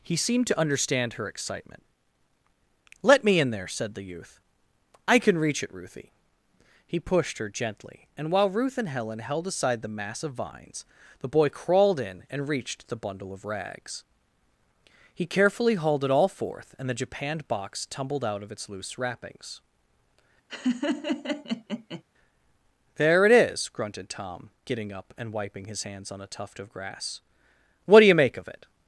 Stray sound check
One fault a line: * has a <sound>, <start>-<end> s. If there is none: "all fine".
* has a laugh, 20.5-22.0 s